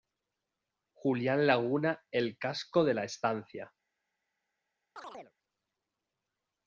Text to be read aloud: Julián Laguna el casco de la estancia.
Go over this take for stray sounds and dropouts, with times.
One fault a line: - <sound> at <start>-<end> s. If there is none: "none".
- chirp at 5.0-5.3 s